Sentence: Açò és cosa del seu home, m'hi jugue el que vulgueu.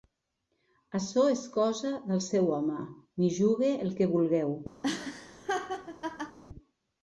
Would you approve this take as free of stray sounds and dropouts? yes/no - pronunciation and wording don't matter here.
no